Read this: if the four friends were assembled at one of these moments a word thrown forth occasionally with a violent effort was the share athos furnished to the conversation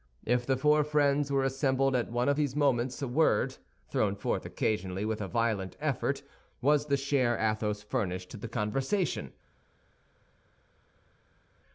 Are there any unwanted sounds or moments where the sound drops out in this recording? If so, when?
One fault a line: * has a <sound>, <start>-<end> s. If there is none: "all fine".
all fine